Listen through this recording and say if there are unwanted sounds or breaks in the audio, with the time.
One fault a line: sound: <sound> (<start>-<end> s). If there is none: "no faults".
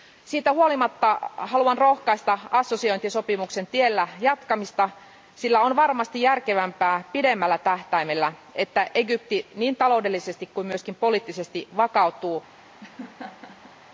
sound: laugh (12.8-13.8 s)